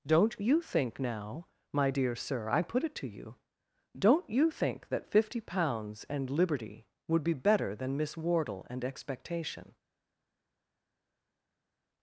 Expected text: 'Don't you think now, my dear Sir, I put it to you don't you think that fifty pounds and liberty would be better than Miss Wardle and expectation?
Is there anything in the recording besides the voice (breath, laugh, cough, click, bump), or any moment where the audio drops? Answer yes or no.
no